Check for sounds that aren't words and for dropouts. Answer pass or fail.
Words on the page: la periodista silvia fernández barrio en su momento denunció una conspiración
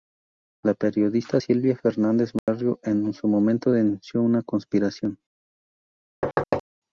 fail